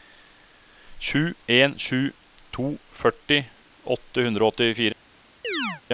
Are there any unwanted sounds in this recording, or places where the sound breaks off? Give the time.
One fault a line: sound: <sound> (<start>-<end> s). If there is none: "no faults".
sound: chirp (5.4-5.8 s)